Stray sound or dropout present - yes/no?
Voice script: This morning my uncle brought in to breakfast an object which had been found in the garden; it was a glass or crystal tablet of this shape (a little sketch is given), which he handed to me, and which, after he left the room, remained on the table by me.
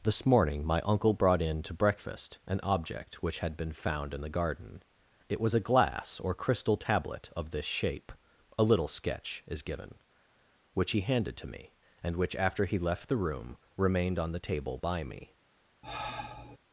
yes